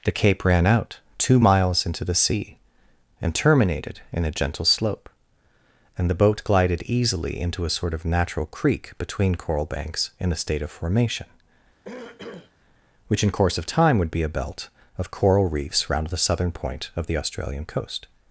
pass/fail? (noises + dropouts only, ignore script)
fail